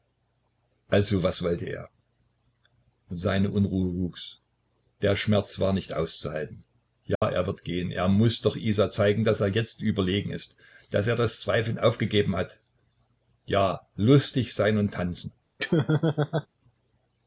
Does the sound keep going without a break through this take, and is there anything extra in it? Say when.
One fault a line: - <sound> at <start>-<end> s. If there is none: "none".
- dropout at 7.2-7.2 s
- laugh at 15.6-16.5 s